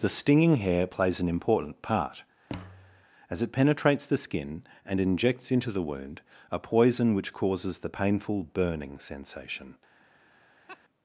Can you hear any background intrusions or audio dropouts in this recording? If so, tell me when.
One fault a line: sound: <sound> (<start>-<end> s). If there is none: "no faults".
sound: thud (2.5-3.1 s)
sound: laugh (10.7-10.8 s)